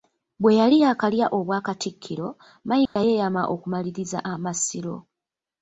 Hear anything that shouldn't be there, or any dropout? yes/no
yes